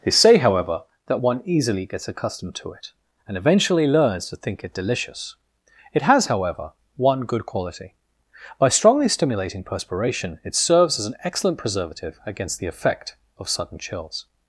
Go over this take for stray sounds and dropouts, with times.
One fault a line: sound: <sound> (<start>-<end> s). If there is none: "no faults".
no faults